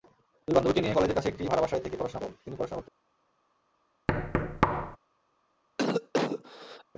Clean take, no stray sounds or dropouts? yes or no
no